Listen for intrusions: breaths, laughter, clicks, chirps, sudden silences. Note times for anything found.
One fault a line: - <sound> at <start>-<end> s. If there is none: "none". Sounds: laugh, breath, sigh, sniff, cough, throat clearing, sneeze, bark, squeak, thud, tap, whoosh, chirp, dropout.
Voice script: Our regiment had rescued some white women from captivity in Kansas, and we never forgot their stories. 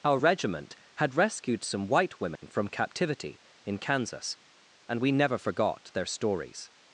- dropout at 2.4-2.4 s